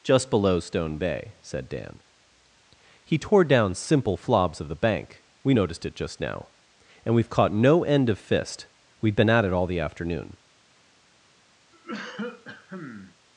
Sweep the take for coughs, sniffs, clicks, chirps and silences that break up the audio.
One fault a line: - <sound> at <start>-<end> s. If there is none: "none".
- cough at 11.7-13.2 s